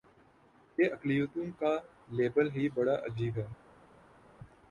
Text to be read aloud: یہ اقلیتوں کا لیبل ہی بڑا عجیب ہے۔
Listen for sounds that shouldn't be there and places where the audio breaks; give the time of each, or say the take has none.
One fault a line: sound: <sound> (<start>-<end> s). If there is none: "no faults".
no faults